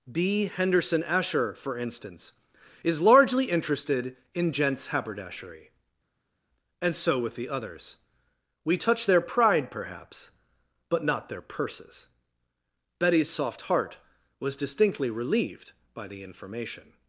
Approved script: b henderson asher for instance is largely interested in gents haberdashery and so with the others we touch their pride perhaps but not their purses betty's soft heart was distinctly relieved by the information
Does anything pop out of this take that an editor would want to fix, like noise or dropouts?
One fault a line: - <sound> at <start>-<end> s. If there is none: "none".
none